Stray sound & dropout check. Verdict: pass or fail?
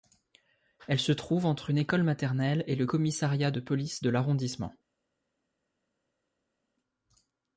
pass